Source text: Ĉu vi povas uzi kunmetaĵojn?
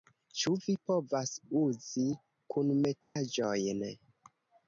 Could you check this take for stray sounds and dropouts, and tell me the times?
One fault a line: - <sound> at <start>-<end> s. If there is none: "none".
- dropout at 3.0-3.2 s